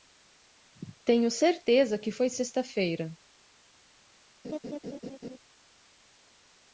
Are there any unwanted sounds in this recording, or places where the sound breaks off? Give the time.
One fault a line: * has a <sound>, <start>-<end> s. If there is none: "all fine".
* has a laugh, 4.4-5.4 s